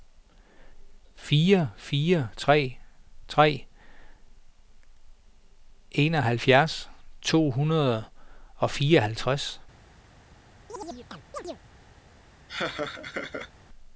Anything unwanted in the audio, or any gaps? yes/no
yes